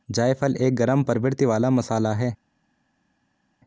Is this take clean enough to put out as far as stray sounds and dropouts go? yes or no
yes